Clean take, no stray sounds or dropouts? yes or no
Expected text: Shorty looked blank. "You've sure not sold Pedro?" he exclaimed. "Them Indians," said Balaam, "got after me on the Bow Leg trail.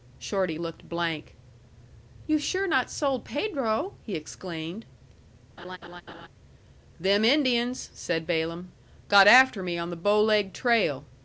no